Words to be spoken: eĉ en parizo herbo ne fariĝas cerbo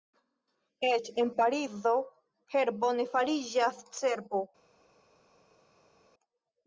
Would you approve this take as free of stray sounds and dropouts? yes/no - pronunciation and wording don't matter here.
yes